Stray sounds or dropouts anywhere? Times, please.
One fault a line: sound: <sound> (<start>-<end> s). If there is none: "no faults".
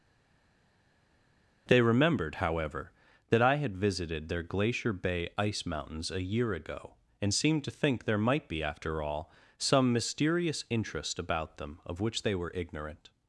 no faults